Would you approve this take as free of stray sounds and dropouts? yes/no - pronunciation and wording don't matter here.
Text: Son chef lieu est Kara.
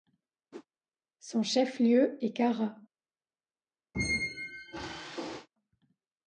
no